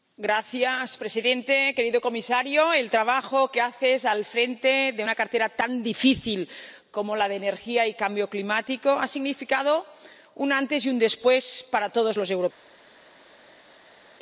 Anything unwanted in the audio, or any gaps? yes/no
no